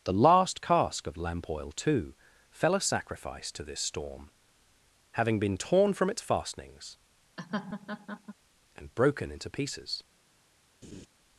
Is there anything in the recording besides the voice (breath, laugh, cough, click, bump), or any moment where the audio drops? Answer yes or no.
yes